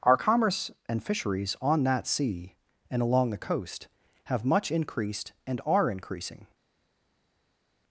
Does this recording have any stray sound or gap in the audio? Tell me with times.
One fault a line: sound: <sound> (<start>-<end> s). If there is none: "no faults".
no faults